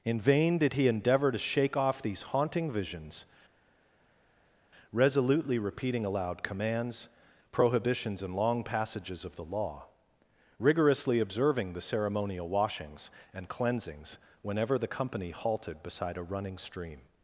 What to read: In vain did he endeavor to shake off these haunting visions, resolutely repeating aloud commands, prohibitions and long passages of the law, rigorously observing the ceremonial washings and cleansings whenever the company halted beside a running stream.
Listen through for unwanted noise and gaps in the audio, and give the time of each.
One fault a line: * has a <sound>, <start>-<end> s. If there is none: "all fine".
all fine